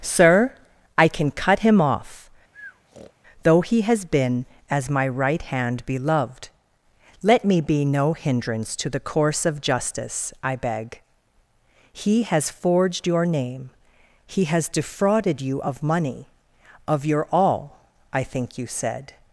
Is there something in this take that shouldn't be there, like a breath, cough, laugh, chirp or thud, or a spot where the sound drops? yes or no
yes